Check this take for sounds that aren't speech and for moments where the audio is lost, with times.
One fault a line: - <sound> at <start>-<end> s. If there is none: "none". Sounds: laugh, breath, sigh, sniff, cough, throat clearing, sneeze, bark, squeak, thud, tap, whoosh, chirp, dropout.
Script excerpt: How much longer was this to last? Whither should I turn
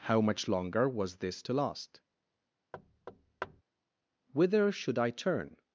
- thud at 2.7-3.6 s